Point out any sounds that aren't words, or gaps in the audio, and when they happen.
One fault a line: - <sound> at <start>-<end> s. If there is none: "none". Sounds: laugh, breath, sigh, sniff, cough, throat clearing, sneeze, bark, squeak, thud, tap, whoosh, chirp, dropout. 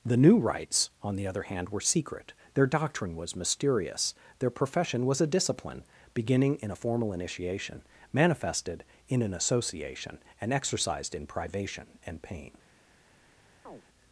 - chirp at 13.7-13.8 s